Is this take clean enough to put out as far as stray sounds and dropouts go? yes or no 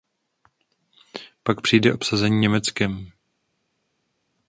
yes